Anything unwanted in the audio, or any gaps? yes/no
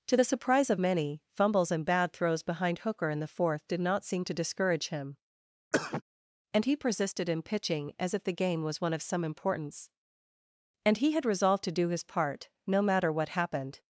yes